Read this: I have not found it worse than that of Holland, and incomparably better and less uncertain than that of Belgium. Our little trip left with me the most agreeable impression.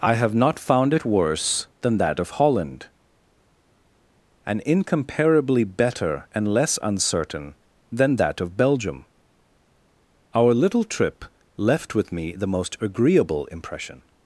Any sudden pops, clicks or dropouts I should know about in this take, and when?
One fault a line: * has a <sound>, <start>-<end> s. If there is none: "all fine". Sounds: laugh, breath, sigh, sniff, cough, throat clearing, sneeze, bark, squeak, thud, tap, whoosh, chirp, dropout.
all fine